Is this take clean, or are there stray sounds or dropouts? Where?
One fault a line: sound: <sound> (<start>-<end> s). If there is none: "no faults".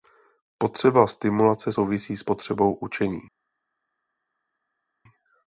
no faults